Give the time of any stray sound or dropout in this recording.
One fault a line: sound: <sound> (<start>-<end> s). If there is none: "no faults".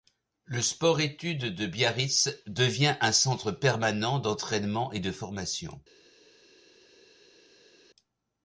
no faults